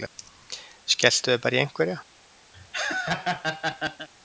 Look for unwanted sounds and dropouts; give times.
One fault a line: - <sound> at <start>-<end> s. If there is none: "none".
- laugh at 2.5-4.1 s